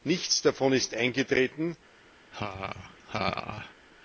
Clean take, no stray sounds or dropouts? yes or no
no